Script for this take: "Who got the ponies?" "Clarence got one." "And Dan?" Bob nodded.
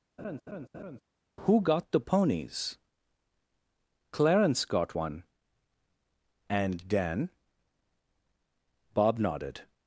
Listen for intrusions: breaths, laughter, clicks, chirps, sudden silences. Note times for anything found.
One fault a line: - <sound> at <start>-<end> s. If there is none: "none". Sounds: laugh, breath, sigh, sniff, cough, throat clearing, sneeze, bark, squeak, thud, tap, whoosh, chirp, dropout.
- laugh at 0.2-1.0 s